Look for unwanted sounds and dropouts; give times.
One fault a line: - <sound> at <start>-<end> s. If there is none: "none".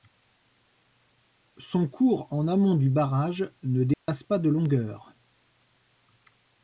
- dropout at 3.9-4.1 s